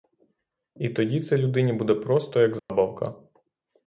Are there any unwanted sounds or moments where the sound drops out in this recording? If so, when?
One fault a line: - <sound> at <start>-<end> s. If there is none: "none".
- dropout at 2.6-2.7 s